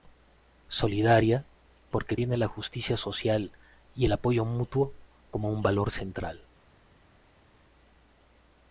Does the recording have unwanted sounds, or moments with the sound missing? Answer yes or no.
no